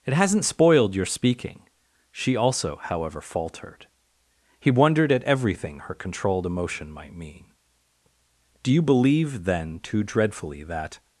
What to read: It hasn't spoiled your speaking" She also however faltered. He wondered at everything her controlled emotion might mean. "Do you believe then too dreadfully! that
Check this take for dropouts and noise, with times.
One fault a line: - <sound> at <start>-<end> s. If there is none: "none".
none